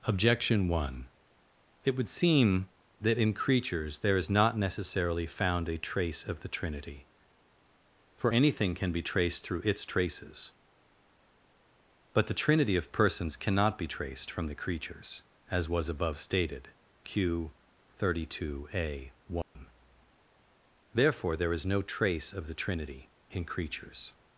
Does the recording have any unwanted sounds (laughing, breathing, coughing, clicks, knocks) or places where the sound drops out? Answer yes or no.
yes